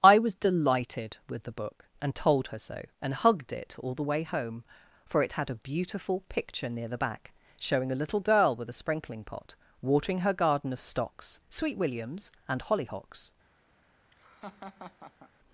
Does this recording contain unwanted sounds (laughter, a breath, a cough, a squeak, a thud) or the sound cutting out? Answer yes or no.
yes